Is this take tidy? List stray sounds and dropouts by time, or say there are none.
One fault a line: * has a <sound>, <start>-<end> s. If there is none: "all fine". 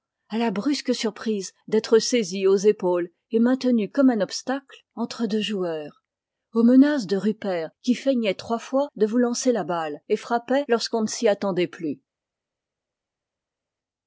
all fine